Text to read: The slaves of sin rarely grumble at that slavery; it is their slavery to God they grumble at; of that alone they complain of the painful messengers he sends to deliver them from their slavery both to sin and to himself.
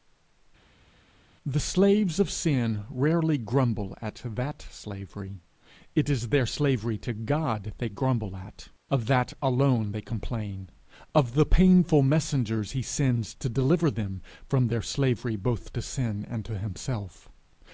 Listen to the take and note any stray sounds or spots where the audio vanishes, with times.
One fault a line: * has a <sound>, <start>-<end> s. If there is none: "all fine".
all fine